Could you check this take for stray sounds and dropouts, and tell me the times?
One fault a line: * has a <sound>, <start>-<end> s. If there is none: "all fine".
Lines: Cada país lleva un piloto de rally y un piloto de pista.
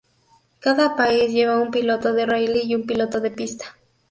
all fine